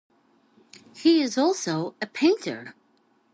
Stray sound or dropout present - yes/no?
no